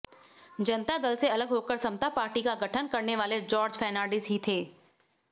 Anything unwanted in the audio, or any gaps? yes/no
no